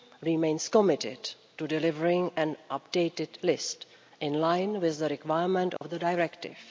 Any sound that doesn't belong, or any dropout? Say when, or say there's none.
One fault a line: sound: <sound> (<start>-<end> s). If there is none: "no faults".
sound: dropout (5.8-5.8 s)